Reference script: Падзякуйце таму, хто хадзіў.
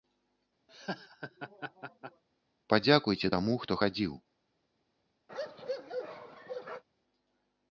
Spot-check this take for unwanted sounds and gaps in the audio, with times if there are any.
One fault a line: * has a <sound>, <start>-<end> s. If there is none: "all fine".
* has a laugh, 0.7-2.2 s
* has a bark, 5.3-6.8 s